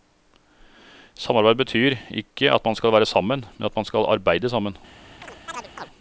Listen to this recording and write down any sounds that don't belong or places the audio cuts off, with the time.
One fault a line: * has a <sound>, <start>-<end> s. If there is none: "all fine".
* has a chirp, 5.2-5.9 s